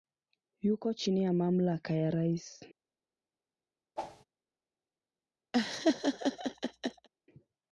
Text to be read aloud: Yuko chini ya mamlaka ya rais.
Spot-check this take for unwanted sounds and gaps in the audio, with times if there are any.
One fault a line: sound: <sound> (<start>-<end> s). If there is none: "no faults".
sound: whoosh (4.0-4.2 s)
sound: laugh (5.5-7.1 s)